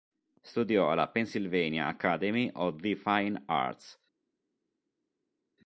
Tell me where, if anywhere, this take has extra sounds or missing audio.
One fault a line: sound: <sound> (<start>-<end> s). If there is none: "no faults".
no faults